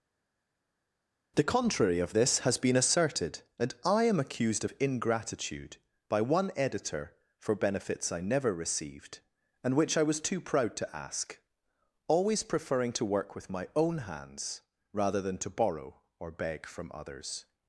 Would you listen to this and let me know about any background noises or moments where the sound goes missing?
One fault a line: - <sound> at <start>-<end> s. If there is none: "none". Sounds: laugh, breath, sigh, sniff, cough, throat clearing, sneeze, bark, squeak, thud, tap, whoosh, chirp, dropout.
none